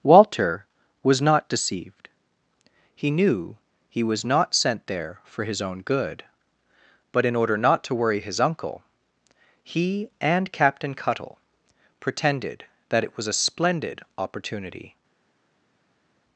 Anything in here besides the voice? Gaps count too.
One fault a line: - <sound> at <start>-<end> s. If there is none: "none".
none